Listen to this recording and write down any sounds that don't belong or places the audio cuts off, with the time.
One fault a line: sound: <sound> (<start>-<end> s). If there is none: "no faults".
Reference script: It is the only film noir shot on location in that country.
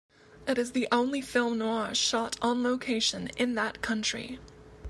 no faults